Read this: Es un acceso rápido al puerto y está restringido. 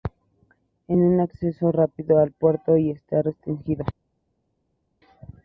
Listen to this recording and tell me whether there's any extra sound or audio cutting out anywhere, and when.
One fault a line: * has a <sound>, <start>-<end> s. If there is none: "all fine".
all fine